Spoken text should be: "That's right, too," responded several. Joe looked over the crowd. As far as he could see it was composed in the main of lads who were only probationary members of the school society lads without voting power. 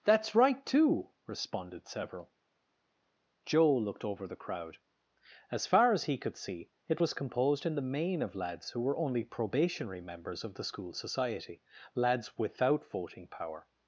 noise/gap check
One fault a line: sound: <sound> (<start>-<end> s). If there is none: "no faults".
no faults